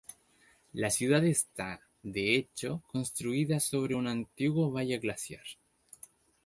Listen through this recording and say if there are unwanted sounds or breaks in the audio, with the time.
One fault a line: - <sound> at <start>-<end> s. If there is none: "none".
none